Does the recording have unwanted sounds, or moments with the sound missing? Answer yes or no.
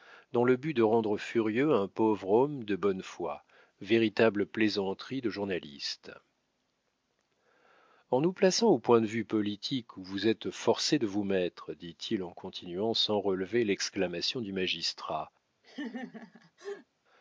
yes